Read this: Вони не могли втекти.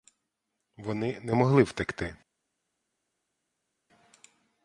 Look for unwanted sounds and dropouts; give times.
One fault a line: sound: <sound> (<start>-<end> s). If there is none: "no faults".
no faults